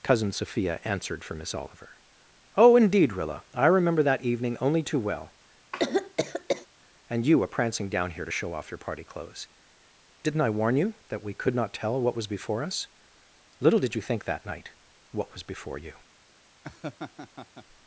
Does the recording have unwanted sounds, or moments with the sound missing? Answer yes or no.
yes